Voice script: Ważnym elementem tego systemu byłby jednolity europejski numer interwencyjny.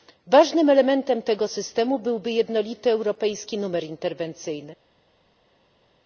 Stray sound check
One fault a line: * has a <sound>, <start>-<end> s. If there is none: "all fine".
all fine